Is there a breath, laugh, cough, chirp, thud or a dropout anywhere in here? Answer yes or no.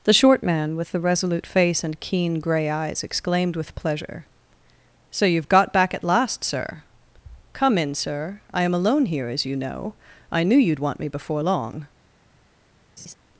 yes